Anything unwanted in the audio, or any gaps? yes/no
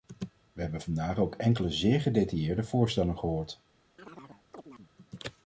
yes